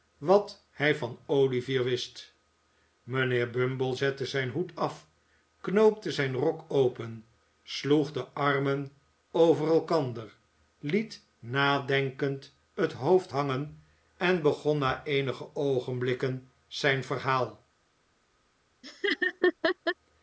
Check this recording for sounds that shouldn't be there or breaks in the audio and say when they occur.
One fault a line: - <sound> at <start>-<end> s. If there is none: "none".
- laugh at 18.8-20.0 s